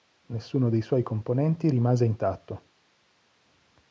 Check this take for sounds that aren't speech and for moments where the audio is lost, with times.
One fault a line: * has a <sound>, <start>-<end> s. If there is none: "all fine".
all fine